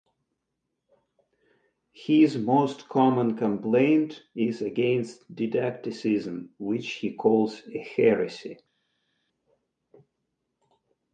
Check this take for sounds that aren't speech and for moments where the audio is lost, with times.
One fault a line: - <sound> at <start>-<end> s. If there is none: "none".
none